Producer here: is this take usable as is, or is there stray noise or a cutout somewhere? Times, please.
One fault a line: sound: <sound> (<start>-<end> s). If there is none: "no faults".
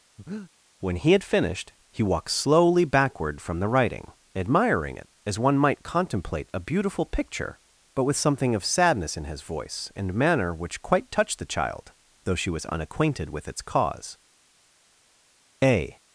sound: breath (0.2-0.5 s)